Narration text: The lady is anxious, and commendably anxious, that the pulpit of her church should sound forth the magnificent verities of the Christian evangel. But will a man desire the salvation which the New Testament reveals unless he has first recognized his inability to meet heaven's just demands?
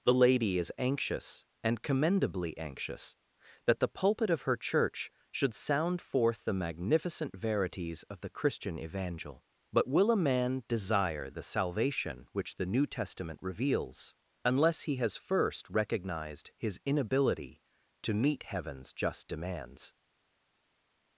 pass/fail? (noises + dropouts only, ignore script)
pass